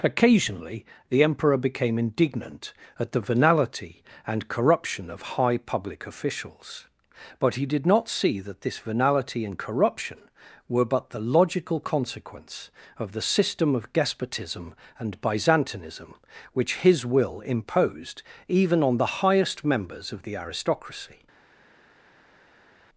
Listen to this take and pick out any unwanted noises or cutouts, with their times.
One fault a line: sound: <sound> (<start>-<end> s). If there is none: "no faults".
no faults